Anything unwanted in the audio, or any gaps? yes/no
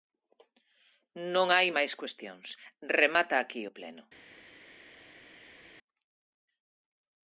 no